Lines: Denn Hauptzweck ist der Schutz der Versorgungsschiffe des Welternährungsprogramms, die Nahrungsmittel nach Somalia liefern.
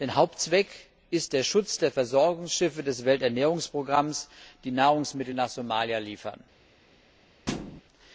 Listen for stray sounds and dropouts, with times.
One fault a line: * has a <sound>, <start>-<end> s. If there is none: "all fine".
* has a thud, 7.5-7.8 s